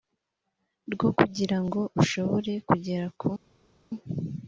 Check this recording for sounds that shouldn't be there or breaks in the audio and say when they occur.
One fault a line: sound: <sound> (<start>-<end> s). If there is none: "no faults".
no faults